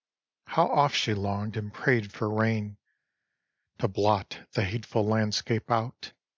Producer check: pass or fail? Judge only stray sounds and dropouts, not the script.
pass